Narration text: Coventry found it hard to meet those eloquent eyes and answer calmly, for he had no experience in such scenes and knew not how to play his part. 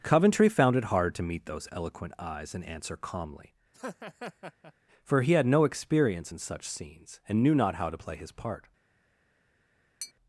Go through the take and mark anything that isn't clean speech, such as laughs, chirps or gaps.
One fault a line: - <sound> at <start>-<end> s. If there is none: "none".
- laugh at 3.7-4.7 s
- tap at 10.0-10.1 s